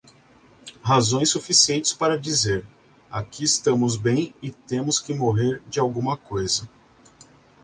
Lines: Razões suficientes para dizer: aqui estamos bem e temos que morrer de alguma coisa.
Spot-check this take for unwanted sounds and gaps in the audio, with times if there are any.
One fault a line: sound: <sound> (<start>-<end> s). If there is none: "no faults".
no faults